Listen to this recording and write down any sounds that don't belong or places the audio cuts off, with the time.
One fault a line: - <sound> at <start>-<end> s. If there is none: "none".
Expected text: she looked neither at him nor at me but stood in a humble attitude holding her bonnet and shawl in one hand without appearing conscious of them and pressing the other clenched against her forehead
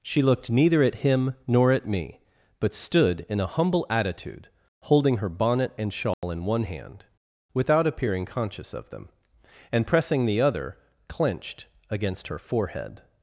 - dropout at 6.1-6.2 s